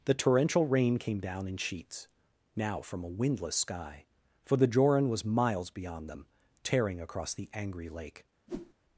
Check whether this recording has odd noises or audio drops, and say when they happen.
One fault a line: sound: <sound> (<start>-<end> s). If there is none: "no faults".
sound: whoosh (8.5-8.7 s)